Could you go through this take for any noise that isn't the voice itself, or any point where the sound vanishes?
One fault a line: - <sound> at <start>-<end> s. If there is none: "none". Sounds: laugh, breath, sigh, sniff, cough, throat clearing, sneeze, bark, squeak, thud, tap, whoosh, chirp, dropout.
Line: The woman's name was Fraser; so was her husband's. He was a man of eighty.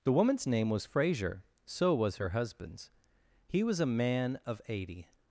none